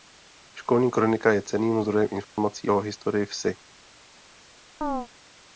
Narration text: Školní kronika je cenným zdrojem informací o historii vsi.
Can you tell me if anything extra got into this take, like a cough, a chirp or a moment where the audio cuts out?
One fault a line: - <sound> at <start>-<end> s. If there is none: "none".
- dropout at 2.2-2.4 s
- chirp at 4.8-5.1 s